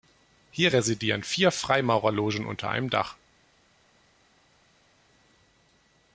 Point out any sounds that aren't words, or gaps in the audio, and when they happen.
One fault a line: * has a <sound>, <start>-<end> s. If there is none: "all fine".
all fine